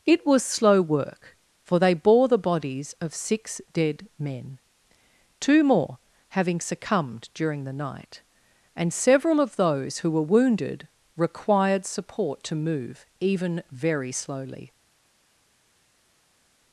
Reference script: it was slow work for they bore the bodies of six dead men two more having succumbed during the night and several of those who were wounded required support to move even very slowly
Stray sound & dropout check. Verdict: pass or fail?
pass